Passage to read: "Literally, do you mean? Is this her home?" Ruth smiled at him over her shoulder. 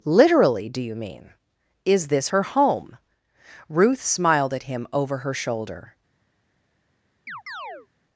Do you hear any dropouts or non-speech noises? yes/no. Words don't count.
yes